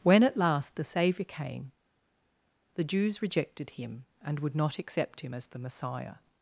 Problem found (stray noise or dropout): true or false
false